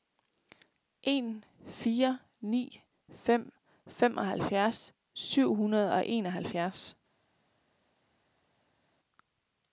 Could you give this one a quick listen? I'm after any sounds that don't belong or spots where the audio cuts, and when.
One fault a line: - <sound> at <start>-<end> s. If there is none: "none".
none